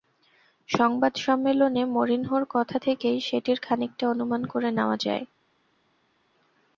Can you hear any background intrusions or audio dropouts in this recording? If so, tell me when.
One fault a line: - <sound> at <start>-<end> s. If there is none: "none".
none